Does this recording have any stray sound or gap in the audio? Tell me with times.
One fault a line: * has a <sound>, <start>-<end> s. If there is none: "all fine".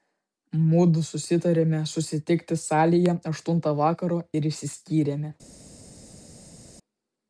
all fine